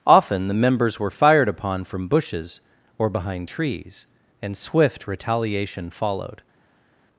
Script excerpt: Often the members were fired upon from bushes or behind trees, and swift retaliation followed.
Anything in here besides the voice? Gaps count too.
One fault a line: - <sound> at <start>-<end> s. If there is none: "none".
none